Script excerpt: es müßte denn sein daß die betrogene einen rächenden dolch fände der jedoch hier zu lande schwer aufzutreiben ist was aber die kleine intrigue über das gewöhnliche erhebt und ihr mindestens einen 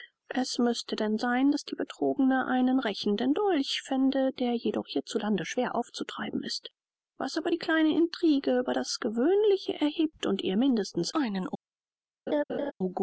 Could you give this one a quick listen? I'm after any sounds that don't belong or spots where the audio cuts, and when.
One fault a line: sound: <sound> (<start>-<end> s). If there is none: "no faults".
sound: laugh (12.3-12.7 s)